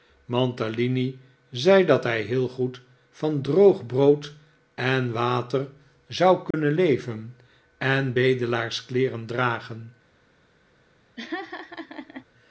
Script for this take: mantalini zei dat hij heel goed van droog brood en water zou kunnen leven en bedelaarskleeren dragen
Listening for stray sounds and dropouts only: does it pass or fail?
fail